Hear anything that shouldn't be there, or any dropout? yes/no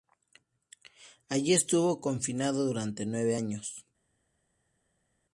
no